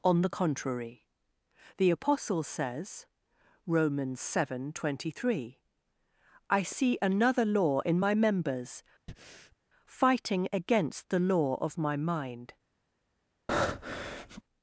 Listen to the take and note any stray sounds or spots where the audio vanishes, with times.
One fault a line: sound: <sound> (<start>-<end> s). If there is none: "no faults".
sound: breath (9.1-9.6 s)
sound: breath (13.5-14.4 s)